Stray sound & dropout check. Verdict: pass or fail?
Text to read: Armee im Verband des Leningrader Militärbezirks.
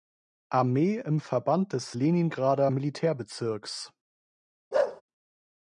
fail